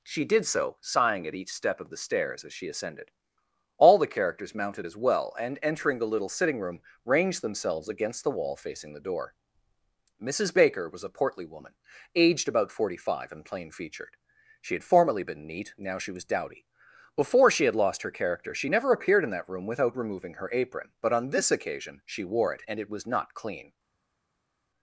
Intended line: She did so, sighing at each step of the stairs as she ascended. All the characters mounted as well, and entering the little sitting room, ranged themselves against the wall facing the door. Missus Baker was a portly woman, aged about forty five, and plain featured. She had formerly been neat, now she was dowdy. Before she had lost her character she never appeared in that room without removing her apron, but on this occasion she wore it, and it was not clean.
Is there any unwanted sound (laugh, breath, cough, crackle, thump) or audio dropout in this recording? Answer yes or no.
no